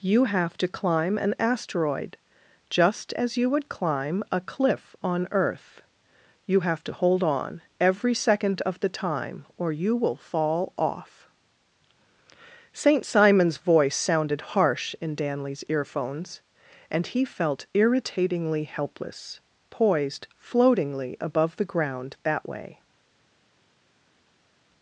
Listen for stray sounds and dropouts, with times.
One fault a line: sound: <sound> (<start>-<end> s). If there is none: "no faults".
no faults